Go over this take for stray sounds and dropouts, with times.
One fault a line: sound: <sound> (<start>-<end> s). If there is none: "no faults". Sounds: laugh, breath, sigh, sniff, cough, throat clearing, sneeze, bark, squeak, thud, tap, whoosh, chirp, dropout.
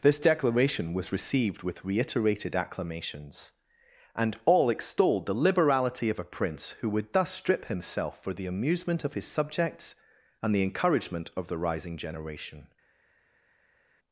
no faults